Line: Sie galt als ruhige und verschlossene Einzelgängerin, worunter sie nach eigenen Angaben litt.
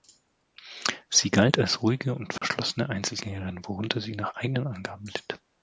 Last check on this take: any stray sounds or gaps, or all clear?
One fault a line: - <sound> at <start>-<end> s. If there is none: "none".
- dropout at 2.4-2.4 s